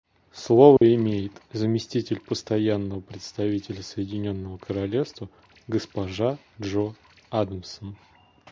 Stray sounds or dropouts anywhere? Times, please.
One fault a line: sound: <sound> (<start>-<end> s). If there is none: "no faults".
sound: dropout (0.8-0.8 s)